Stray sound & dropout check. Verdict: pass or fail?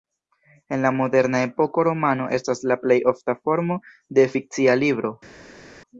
pass